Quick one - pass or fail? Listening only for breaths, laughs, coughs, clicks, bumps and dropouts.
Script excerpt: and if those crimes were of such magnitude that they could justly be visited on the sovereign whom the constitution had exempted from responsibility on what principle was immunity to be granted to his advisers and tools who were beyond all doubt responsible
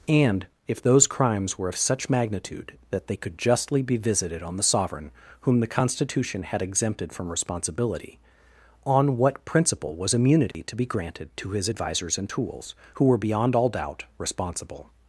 fail